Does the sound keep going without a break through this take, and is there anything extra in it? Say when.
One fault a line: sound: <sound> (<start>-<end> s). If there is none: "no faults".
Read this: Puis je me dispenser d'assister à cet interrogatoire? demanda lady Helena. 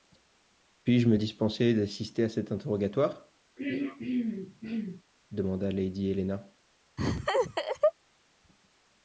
sound: throat clearing (3.6-5.0 s)
sound: laugh (7.0-7.9 s)